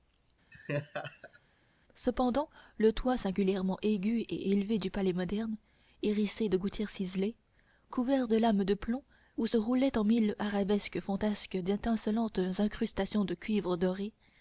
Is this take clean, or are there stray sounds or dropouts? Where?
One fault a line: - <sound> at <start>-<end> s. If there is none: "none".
- laugh at 0.5-1.4 s